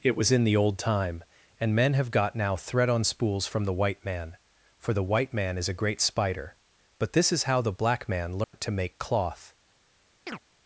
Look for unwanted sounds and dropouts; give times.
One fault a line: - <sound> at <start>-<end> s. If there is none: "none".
- dropout at 8.4-8.5 s
- chirp at 10.3-10.4 s